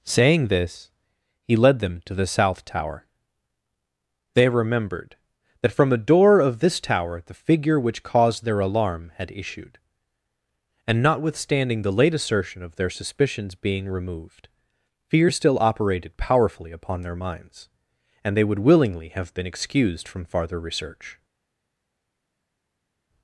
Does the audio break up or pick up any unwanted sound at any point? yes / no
no